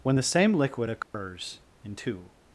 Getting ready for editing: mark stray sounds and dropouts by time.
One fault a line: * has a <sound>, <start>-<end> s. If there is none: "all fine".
* has a dropout, 1.0-1.1 s